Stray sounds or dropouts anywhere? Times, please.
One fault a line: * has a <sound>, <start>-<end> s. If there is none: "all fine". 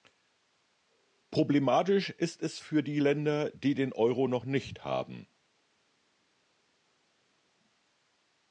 all fine